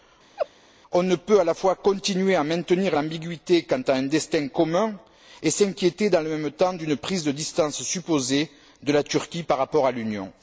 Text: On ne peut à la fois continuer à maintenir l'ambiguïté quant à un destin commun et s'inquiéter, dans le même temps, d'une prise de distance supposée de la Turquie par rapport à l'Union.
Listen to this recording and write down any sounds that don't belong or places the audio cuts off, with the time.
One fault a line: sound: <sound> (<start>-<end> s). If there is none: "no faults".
sound: laugh (0.4-0.5 s)